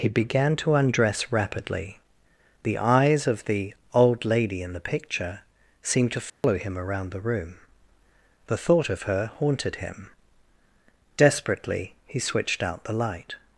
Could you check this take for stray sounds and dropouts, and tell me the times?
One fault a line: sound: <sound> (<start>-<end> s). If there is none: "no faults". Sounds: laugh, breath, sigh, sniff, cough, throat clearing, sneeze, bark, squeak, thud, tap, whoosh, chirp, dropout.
sound: dropout (6.3-6.4 s)